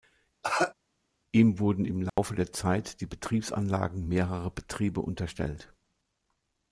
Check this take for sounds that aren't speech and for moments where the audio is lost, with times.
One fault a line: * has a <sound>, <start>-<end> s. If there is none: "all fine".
* has a cough, 0.4-0.7 s
* has a dropout, 2.1-2.2 s